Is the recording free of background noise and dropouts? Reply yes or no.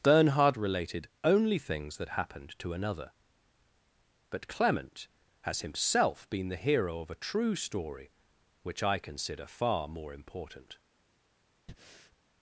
no